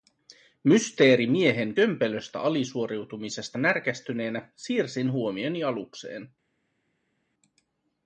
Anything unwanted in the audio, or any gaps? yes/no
no